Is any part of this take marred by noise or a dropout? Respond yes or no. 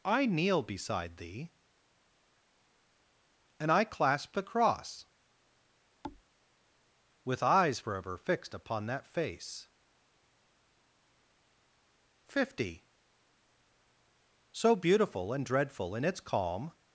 yes